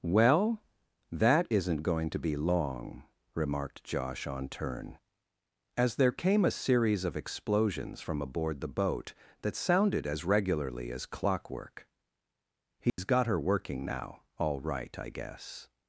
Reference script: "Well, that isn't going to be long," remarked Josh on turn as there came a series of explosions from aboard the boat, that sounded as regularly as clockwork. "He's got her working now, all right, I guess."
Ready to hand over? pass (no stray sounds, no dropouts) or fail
fail